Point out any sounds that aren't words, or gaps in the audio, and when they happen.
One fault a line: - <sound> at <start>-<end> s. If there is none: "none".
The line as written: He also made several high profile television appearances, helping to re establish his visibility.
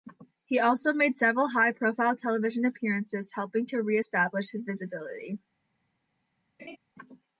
- laugh at 6.6-6.8 s